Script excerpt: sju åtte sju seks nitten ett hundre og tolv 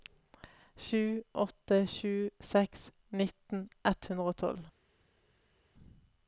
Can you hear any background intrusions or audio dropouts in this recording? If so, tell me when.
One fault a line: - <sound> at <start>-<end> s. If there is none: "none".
none